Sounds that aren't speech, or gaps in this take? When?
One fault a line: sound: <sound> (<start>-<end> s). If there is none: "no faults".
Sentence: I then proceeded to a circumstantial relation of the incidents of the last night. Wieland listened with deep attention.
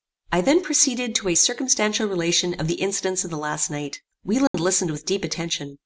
sound: dropout (4.5-4.5 s)